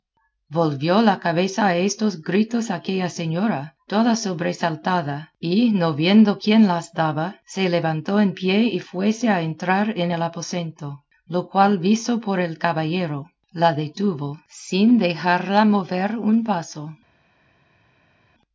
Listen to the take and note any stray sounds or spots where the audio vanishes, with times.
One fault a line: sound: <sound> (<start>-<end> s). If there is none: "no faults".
no faults